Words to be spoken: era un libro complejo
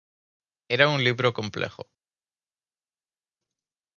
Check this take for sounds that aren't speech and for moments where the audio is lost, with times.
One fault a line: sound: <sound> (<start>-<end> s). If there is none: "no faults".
no faults